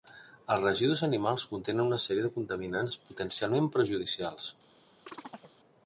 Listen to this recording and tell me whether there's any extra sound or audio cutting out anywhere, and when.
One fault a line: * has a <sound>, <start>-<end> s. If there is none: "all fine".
* has a chirp, 5.1-5.5 s